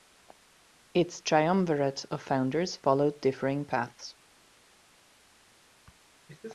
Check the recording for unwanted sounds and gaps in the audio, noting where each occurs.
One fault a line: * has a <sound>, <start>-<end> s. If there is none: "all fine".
all fine